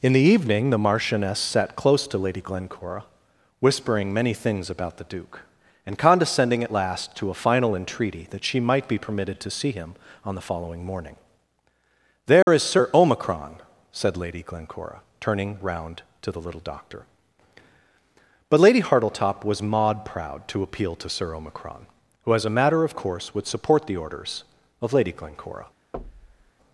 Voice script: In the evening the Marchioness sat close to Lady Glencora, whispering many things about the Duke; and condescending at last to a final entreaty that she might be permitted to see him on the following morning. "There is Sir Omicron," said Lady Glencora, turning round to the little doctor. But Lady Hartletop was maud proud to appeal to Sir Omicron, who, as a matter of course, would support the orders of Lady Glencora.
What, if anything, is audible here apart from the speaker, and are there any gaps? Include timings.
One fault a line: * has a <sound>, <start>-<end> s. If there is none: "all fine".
* has a dropout, 12.4-12.5 s
* has a thud, 25.9-26.5 s